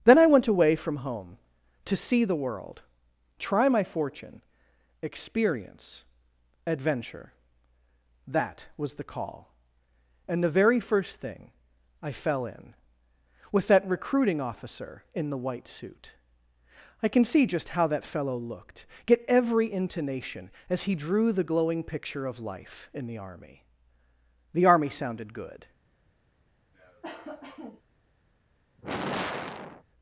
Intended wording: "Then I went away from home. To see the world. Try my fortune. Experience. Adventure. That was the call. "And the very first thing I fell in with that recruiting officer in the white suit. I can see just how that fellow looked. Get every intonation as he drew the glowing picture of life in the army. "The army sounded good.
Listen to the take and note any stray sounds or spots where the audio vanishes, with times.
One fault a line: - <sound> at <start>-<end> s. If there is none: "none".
- cough at 26.7-27.8 s
- sigh at 28.8-29.8 s